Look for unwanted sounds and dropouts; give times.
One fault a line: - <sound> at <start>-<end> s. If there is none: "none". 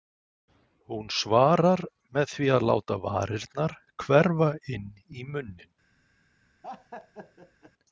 - laugh at 6.6-7.7 s